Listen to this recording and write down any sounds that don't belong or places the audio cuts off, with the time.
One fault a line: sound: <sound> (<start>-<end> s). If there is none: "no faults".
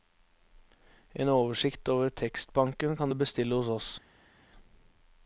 no faults